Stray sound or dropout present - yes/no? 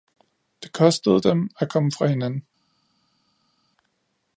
no